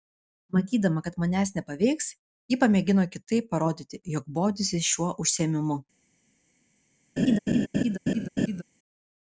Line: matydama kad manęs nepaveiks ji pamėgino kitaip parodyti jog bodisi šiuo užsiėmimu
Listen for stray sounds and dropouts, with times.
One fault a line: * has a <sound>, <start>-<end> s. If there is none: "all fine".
* has a laugh, 7.2-8.6 s